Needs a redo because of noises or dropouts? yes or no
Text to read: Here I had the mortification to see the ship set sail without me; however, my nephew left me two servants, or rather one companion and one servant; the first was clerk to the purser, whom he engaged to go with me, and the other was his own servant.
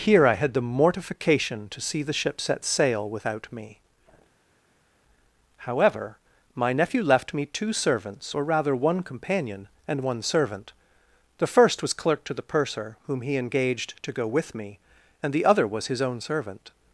no